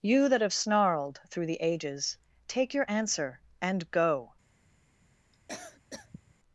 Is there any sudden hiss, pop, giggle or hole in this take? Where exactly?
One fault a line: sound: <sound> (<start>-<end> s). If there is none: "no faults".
sound: cough (5.3-6.3 s)